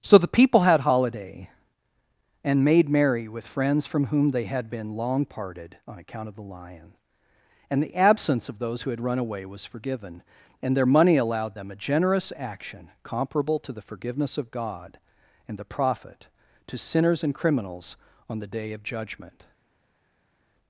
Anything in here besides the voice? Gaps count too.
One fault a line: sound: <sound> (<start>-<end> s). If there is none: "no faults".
no faults